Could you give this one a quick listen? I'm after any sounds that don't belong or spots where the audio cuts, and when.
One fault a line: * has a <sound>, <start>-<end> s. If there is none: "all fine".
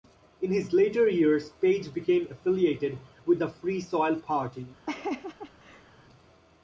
* has a laugh, 4.9-5.9 s